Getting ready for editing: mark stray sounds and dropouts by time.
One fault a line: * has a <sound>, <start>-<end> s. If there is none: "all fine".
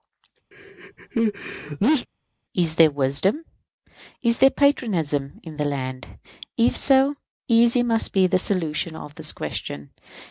* has a sneeze, 0.5-2.1 s